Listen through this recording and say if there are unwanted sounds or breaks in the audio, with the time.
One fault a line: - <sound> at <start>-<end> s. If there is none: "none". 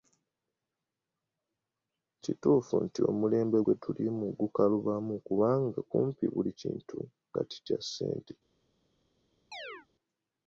- chirp at 9.5-9.9 s